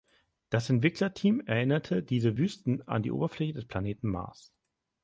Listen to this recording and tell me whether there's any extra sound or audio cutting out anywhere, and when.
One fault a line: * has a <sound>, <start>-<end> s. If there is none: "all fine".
all fine